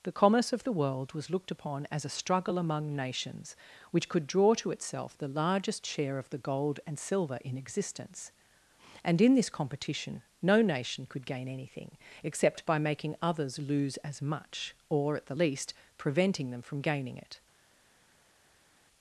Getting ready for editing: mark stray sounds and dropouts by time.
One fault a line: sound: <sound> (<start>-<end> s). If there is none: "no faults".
no faults